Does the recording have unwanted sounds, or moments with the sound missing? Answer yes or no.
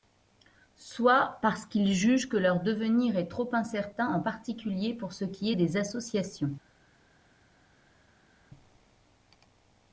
no